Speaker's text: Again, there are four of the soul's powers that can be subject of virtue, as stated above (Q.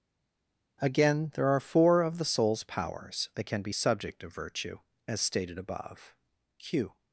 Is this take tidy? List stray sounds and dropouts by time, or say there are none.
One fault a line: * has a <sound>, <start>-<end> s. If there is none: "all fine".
all fine